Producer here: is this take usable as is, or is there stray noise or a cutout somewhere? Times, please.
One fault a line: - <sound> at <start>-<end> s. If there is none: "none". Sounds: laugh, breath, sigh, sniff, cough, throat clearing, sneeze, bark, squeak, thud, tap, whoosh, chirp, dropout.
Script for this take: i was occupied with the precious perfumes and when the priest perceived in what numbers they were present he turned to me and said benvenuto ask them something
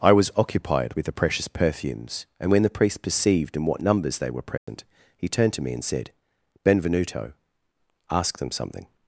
- dropout at 4.6-4.7 s